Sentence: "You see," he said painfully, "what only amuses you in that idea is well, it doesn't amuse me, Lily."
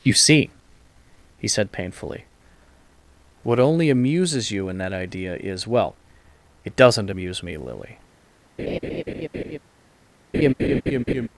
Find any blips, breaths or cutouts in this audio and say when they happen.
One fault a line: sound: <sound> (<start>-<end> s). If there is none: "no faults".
sound: laugh (8.6-9.6 s)
sound: laugh (10.3-11.3 s)